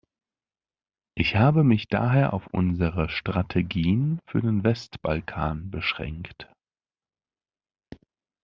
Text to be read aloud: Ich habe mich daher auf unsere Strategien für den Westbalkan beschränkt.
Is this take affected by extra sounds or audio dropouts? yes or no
no